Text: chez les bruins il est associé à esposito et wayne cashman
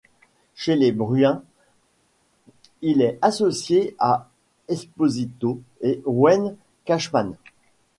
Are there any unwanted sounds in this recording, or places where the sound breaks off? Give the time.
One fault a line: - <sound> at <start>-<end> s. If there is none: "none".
none